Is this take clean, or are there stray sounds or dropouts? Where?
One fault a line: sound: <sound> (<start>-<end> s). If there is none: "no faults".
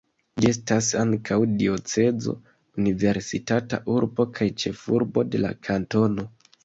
no faults